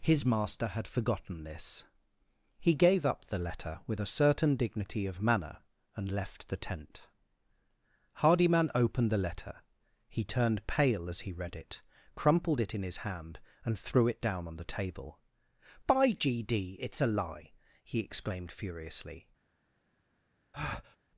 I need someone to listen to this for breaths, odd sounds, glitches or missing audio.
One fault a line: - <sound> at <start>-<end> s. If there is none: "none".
- breath at 20.5-21.0 s